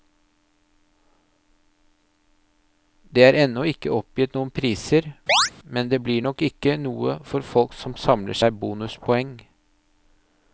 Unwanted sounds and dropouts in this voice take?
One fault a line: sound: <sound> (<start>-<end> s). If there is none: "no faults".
sound: chirp (5.3-5.5 s)